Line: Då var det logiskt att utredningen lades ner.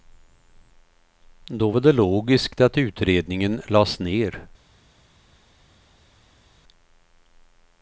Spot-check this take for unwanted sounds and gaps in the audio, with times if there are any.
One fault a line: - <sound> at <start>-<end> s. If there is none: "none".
none